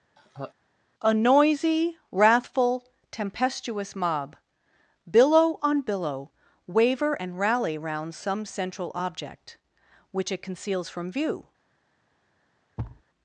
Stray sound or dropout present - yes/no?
yes